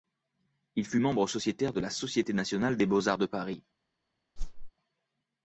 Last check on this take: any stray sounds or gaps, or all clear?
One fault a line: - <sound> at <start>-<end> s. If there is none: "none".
- whoosh at 4.4-4.7 s